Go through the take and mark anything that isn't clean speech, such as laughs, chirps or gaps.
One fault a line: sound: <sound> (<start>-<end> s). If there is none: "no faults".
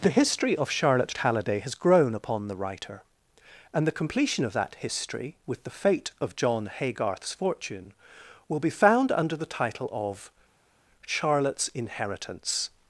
no faults